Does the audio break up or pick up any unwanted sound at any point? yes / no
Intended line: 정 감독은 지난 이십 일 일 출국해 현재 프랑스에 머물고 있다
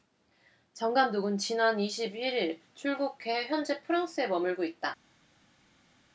no